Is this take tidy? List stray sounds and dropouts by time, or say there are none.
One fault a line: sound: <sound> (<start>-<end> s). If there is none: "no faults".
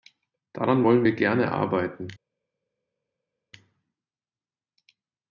no faults